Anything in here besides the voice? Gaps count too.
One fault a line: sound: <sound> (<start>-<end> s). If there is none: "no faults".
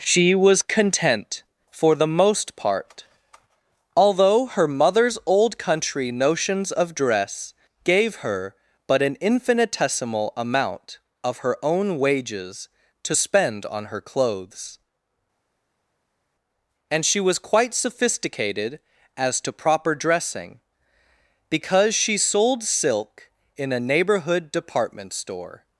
no faults